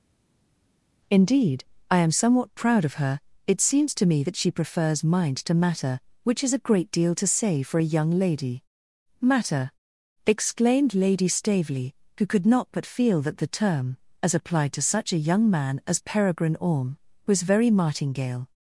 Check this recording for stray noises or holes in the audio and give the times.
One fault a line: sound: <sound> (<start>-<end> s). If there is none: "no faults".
no faults